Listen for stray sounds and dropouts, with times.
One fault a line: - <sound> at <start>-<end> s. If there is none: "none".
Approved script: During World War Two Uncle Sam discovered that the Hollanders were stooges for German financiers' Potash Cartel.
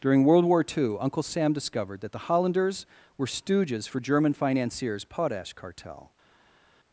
none